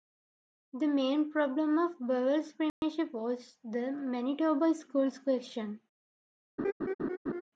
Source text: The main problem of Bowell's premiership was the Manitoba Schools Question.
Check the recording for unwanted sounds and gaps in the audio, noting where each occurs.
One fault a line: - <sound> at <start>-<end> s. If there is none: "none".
- dropout at 2.7-2.8 s
- laugh at 6.6-7.4 s